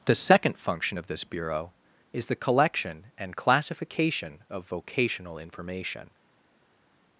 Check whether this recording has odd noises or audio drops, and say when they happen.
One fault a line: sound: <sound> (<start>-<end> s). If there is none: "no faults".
no faults